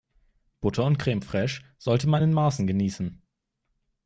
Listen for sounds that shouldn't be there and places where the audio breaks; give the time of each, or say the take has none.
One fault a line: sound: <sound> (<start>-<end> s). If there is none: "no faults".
no faults